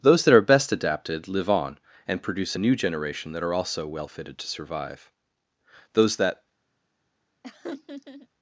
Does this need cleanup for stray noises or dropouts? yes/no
yes